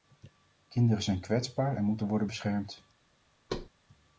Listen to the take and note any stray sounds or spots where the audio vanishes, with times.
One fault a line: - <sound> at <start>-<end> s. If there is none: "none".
- thud at 3.5-3.7 s